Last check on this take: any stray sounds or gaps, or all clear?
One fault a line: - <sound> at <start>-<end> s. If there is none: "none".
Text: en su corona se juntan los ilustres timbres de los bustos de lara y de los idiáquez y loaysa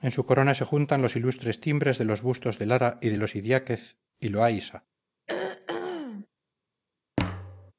- throat clearing at 5.3-6.3 s
- thud at 7.2-7.7 s